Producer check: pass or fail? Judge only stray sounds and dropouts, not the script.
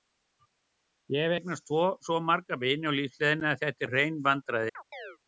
fail